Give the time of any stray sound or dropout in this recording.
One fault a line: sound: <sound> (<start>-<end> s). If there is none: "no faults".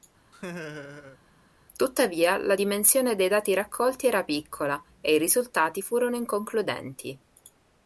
sound: laugh (0.3-1.2 s)